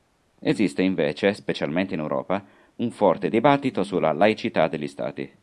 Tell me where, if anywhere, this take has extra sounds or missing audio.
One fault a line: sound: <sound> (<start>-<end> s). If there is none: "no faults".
no faults